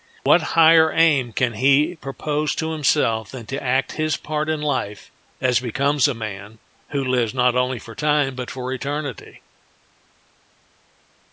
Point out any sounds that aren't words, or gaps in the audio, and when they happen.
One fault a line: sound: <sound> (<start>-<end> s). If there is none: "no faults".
no faults